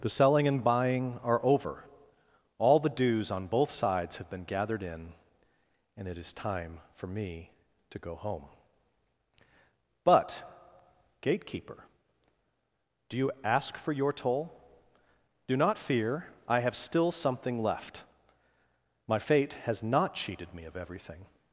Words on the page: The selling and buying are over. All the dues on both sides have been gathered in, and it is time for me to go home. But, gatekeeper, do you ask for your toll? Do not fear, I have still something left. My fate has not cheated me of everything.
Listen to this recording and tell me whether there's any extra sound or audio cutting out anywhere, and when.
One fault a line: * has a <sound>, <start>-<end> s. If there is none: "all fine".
all fine